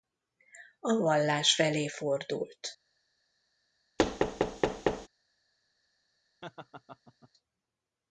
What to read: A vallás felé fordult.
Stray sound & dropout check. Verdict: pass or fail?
fail